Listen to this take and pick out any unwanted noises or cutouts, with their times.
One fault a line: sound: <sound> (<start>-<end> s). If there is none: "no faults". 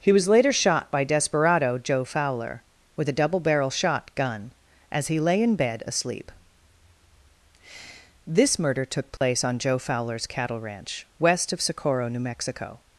sound: dropout (9.2-9.2 s)